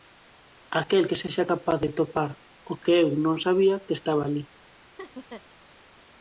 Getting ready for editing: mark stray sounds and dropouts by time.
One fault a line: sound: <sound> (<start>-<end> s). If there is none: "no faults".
sound: laugh (5.0-5.4 s)